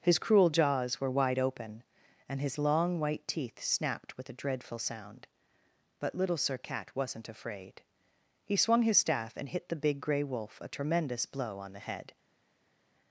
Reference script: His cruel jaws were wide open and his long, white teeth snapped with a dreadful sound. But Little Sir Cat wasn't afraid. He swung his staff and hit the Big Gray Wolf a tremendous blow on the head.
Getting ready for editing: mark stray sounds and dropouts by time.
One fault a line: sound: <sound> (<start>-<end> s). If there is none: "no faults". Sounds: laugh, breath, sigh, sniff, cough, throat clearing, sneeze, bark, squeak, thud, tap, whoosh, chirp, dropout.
no faults